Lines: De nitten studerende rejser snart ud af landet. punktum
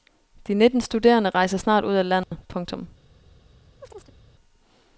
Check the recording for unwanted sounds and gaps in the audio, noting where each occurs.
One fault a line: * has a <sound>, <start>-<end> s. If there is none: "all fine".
* has a dropout, 2.2-2.3 s
* has a chirp, 3.8-4.2 s